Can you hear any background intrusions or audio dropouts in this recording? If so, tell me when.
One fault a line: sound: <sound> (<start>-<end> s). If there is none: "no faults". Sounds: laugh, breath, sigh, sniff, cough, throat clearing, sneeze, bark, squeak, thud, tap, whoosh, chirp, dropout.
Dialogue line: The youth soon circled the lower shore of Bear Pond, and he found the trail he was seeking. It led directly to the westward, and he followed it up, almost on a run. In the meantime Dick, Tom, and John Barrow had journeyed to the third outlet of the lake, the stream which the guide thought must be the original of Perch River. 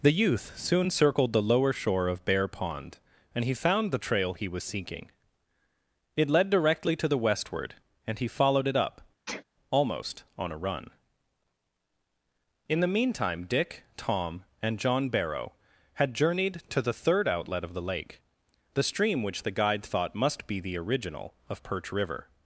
sound: sneeze (9.3-9.4 s)